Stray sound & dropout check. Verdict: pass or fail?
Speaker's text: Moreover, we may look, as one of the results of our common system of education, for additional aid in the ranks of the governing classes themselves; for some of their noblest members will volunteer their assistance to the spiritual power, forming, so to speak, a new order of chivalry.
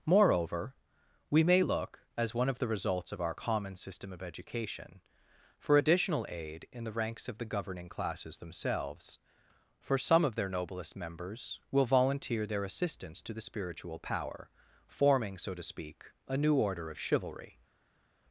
pass